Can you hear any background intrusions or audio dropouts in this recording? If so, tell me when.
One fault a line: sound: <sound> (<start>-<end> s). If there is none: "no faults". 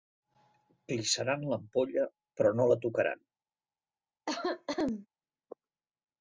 sound: cough (4.3-5.1 s)